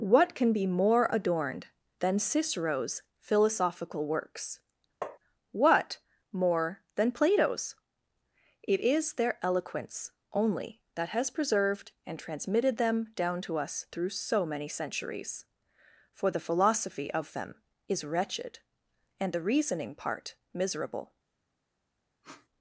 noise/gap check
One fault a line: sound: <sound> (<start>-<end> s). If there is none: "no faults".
sound: tap (5.0-5.2 s)
sound: sniff (22.2-22.5 s)